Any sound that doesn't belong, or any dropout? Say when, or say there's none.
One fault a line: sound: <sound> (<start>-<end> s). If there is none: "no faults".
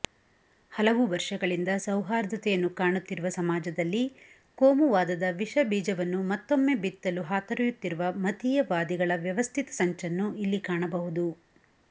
no faults